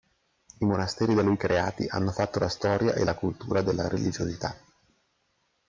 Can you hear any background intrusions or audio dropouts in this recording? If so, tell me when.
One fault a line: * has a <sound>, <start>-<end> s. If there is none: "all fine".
all fine